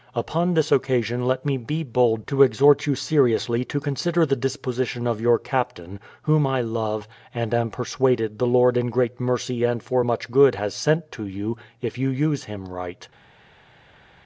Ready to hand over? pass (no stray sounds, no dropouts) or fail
pass